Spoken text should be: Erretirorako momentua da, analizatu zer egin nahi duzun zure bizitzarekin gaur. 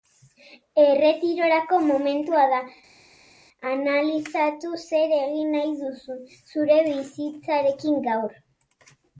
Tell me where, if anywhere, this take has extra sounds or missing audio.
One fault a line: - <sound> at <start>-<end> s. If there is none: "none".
none